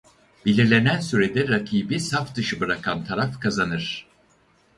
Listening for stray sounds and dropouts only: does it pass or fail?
pass